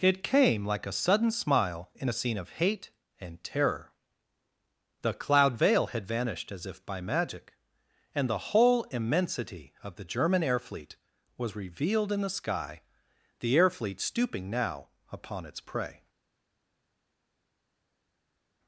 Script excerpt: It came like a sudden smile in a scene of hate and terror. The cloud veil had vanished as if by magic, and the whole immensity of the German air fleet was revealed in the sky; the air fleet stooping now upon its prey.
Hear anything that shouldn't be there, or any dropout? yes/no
no